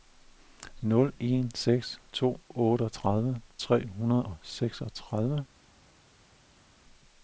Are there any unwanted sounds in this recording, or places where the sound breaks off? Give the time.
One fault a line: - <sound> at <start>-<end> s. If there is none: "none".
none